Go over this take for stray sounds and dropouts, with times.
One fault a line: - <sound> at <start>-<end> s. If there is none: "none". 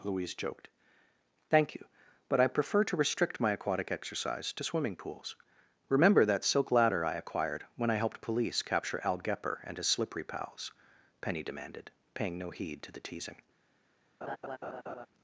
- laugh at 14.2-15.1 s